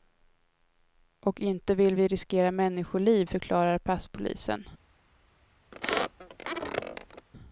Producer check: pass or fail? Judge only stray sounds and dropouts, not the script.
fail